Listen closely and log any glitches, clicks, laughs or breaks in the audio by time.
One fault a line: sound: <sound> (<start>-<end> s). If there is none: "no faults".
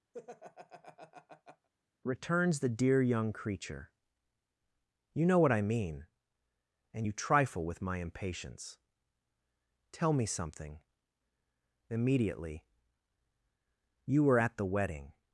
sound: laugh (0.1-1.7 s)